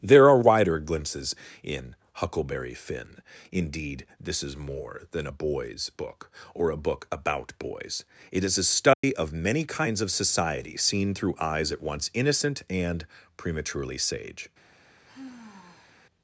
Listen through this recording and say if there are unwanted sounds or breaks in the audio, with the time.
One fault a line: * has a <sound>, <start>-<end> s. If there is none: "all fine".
* has a dropout, 8.9-9.0 s
* has a sigh, 15.1-16.0 s